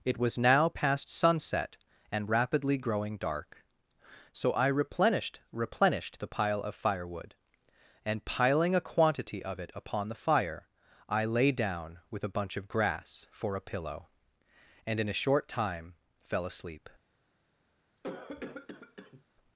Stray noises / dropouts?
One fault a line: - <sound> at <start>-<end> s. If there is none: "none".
- cough at 18.0-19.2 s